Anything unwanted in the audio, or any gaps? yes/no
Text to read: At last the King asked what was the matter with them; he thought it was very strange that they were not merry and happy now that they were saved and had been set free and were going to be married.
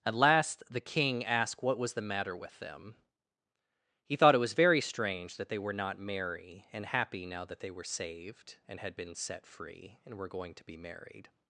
no